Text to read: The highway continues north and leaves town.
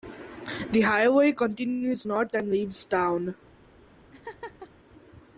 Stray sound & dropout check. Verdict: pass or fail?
fail